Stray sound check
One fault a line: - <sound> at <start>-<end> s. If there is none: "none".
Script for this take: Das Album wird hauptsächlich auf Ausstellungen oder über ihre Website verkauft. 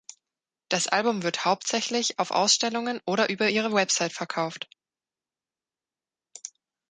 none